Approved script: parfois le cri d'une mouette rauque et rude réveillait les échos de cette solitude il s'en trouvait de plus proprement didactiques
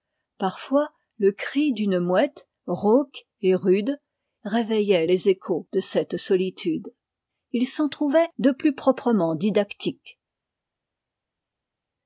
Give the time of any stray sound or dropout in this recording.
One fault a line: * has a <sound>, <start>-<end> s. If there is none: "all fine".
all fine